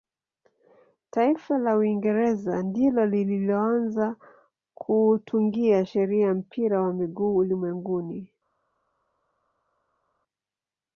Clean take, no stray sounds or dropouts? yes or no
yes